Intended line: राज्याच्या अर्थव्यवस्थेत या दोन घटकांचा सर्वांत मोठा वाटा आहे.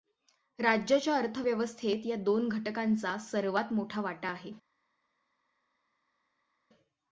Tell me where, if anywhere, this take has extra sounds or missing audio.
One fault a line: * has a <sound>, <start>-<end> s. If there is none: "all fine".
all fine